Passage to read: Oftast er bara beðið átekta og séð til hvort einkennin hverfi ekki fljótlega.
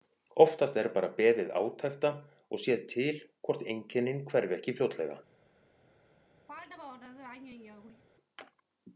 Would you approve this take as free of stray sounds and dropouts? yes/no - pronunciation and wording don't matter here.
no